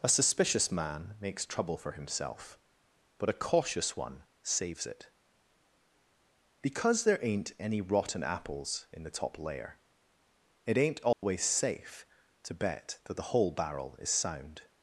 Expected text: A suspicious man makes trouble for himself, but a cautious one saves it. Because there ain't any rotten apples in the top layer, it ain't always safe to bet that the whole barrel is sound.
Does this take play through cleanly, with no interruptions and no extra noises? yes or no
no